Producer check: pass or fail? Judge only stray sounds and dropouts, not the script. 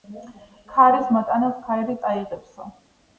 pass